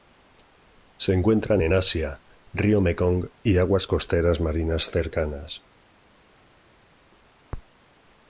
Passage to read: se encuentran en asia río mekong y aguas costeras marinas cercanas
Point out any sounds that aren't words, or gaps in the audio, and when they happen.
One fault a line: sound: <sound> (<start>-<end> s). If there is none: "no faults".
no faults